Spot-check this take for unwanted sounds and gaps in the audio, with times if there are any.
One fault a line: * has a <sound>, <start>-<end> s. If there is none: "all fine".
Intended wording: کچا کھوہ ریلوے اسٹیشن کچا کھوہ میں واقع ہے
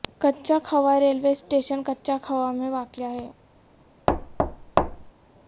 * has a thud, 4.1-5.1 s